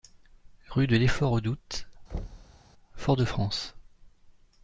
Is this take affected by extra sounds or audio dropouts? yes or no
yes